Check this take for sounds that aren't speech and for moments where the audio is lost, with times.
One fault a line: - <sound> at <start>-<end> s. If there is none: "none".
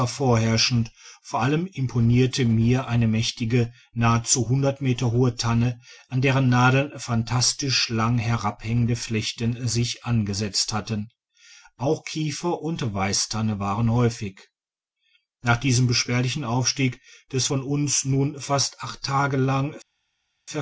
none